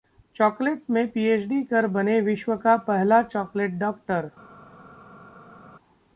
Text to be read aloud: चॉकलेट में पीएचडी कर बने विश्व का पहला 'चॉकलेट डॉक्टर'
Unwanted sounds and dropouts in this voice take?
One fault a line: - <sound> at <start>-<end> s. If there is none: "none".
none